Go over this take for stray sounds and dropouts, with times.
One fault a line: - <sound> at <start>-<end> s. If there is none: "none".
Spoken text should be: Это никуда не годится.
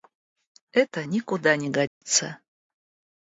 - dropout at 1.9-2.0 s